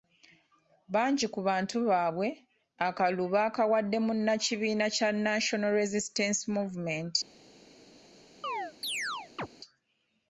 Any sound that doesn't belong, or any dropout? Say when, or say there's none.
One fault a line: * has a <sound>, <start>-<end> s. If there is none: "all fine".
* has a chirp, 8.4-9.5 s